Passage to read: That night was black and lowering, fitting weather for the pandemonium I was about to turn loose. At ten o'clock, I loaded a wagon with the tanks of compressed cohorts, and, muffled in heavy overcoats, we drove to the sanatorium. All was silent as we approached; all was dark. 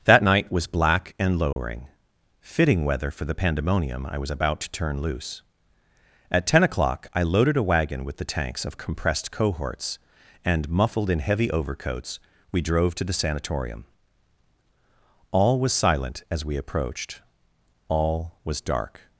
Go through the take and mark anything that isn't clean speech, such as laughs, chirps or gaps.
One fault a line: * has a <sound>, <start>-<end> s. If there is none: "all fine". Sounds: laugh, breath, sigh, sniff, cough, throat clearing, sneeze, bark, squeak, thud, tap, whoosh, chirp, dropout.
* has a dropout, 1.5-1.6 s